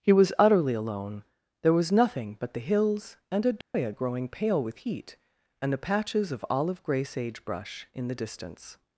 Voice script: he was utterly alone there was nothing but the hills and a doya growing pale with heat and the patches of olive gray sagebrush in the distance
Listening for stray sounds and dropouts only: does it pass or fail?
fail